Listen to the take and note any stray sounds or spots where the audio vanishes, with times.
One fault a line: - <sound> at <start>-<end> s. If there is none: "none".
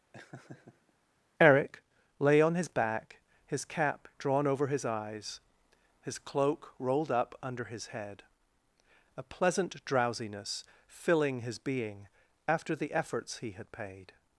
- laugh at 0.1-0.9 s